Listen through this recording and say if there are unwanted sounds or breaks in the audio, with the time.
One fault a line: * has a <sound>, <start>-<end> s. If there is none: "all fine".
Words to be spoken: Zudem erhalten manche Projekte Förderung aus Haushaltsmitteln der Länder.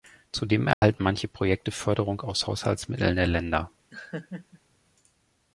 * has a dropout, 0.7-0.8 s
* has a laugh, 3.9-4.6 s